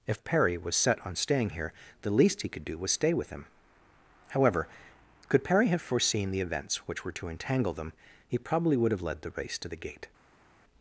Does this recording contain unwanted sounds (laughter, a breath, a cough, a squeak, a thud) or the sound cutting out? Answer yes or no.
no